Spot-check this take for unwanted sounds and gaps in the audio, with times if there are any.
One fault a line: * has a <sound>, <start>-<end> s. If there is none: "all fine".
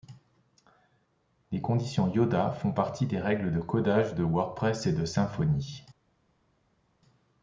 all fine